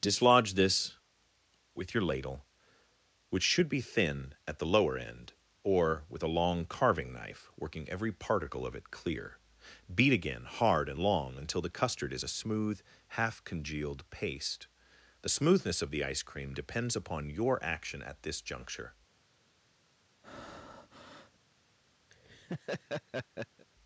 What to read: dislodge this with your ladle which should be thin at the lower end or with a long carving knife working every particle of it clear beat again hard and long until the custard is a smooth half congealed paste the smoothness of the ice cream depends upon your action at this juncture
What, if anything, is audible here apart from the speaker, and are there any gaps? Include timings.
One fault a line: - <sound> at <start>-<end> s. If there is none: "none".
- breath at 20.2-21.4 s
- laugh at 22.1-23.7 s